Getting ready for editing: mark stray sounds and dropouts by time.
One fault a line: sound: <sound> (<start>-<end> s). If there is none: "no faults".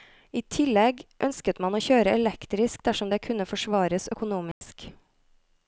sound: dropout (4.5-4.6 s)